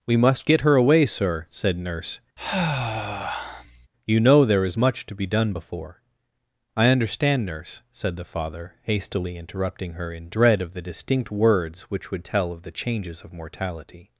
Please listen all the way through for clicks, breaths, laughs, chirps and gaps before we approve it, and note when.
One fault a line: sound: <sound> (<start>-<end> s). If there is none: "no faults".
sound: sigh (2.4-3.9 s)